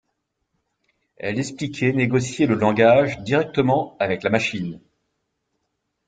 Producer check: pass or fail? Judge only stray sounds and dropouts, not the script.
pass